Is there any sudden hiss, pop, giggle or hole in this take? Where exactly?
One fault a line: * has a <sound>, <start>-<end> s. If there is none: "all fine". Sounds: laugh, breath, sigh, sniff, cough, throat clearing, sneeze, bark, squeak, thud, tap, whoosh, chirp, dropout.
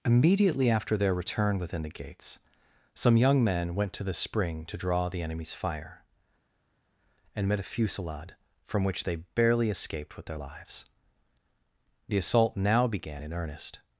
all fine